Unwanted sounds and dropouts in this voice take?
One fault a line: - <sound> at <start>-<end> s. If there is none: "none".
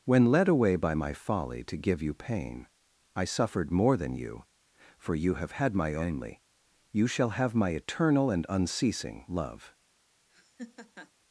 - laugh at 10.3-11.1 s